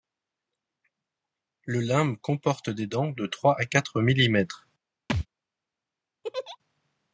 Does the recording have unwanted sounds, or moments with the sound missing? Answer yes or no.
yes